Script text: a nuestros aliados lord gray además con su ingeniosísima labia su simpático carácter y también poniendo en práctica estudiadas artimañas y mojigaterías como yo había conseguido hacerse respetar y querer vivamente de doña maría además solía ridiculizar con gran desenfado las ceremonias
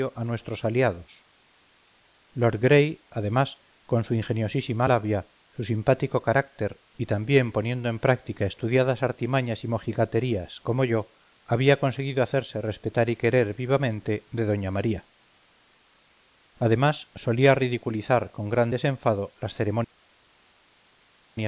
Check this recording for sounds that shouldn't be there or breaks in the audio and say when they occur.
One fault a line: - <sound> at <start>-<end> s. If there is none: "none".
none